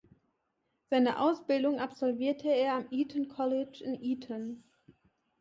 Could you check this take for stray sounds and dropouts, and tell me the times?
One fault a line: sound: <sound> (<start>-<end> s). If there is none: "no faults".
no faults